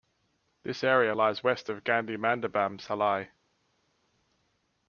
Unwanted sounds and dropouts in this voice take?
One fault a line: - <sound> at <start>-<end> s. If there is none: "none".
none